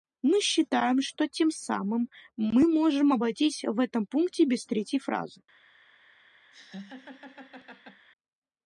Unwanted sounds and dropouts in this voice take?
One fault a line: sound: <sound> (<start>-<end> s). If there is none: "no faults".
sound: laugh (6.5-8.1 s)